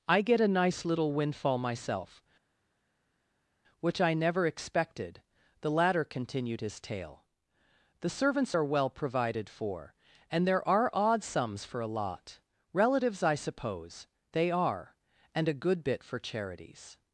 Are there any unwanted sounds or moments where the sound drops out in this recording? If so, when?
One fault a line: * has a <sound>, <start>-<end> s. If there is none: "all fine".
all fine